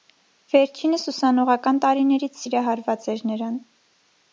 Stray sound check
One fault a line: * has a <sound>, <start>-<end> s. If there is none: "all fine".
all fine